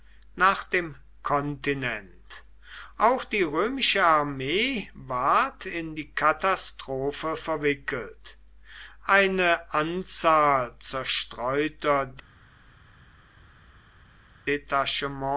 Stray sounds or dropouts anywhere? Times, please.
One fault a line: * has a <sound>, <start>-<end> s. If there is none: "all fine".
all fine